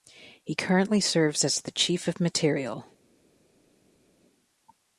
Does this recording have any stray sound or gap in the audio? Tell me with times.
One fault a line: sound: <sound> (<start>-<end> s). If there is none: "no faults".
no faults